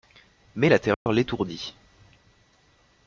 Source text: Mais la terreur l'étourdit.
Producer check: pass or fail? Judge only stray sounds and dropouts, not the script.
fail